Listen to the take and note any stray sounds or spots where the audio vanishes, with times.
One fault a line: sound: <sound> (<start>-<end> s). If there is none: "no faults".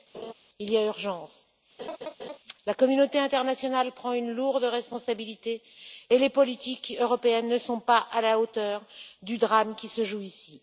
sound: laugh (0.1-0.3 s)
sound: laugh (1.8-2.4 s)